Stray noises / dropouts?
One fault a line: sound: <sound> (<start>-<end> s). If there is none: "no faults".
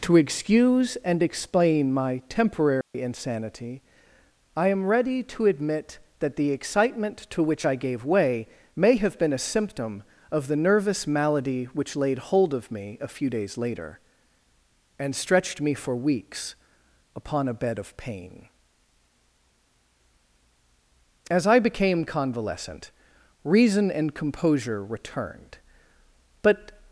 sound: dropout (2.8-2.9 s)